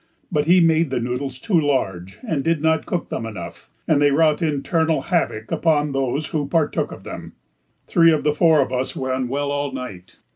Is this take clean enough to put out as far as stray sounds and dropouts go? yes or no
yes